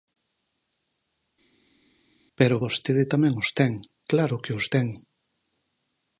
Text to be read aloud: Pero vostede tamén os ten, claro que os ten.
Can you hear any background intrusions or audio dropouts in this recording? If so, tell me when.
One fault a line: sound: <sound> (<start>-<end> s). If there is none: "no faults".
no faults